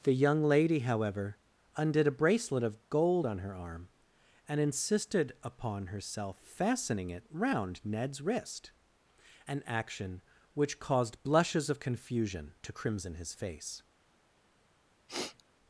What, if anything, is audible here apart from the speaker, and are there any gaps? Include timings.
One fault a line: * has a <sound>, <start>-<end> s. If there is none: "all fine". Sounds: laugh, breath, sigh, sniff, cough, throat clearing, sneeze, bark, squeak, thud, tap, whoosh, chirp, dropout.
* has a sniff, 15.1-15.4 s